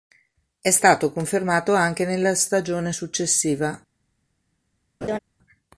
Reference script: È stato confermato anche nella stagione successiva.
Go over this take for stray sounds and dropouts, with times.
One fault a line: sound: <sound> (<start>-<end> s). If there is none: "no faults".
sound: laugh (5.0-5.2 s)